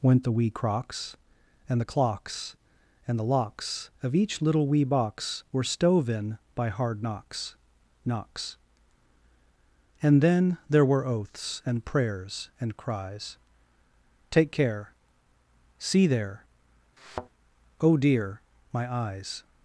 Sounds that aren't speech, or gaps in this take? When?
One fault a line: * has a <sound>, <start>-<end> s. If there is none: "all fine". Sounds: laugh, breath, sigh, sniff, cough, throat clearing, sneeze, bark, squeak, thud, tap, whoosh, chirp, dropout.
* has a thud, 17.0-17.3 s